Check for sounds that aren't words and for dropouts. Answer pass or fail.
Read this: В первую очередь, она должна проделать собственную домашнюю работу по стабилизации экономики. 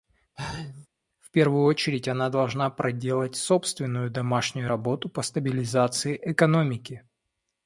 fail